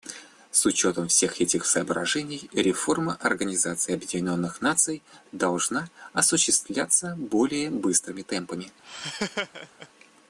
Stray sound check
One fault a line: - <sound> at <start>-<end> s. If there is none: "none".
- laugh at 8.8-9.9 s